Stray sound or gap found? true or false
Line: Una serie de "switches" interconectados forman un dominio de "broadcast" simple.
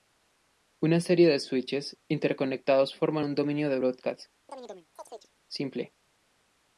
true